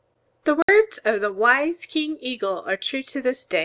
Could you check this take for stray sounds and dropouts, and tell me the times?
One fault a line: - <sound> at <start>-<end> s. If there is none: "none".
- dropout at 0.6-0.7 s